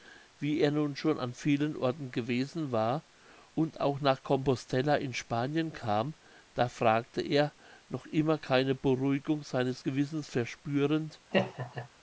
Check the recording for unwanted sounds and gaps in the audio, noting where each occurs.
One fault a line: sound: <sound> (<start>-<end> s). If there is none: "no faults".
sound: laugh (11.3-11.9 s)